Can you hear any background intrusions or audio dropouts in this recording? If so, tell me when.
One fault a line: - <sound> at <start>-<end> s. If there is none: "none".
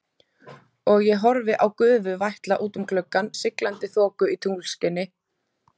none